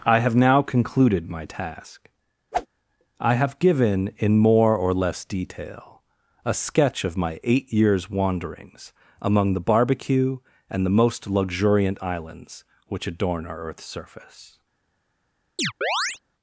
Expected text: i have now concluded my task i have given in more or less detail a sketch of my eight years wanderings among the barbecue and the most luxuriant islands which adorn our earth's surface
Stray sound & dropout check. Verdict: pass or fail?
fail